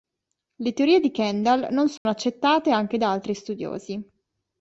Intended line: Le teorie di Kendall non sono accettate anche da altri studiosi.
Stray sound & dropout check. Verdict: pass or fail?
fail